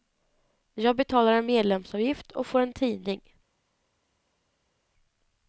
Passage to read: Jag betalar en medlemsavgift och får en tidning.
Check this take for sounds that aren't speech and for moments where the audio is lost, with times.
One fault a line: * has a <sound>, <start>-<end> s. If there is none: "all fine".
all fine